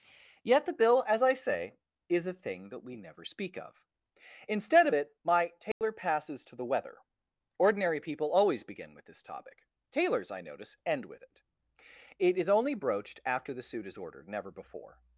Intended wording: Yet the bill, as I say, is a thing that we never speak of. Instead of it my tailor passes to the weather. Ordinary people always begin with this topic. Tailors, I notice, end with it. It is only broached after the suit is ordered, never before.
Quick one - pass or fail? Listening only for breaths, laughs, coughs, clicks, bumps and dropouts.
fail